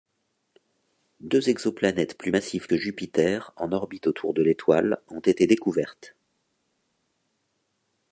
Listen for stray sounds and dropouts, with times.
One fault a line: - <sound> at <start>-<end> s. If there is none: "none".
none